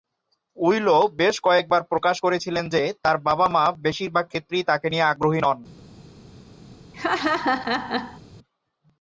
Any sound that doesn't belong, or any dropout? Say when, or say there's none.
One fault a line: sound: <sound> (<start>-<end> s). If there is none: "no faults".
sound: laugh (6.9-8.2 s)